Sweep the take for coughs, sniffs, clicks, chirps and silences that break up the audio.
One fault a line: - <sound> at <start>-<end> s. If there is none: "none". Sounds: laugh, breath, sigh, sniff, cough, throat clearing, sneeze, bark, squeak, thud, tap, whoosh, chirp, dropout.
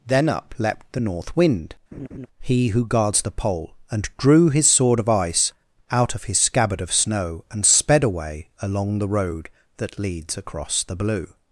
- laugh at 1.9-2.3 s